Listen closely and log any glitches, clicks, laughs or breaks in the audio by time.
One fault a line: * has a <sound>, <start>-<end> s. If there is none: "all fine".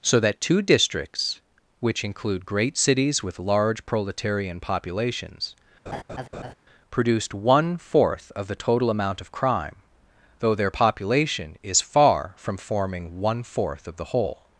* has a laugh, 5.9-6.5 s